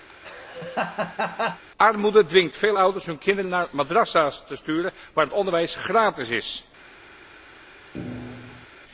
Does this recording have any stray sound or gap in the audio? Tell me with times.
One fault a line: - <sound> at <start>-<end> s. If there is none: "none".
- laugh at 0.1-1.6 s
- thud at 7.9-8.7 s